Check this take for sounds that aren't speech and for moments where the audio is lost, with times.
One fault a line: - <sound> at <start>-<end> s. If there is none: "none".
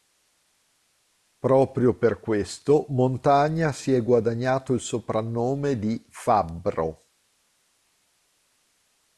none